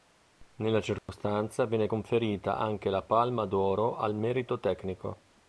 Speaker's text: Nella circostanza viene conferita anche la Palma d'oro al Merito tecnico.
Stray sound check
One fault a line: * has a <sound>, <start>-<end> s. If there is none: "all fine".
* has a dropout, 1.0-1.1 s